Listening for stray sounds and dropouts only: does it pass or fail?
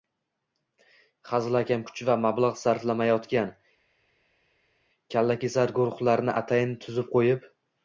pass